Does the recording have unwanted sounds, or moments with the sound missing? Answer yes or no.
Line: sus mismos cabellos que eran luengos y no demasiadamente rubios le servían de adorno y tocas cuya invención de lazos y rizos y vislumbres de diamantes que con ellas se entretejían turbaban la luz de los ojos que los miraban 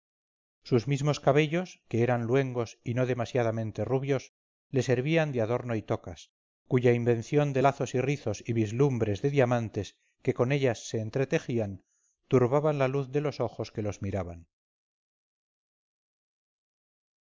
no